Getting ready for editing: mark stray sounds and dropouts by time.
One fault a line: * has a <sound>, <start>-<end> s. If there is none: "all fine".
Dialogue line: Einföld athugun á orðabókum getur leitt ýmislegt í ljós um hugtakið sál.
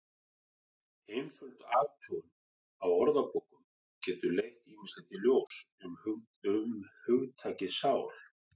* has a dropout, 5.5-5.5 s